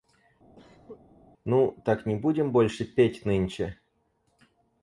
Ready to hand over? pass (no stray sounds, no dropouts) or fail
fail